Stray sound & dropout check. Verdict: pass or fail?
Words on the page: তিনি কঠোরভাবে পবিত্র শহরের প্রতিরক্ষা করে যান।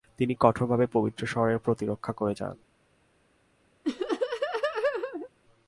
fail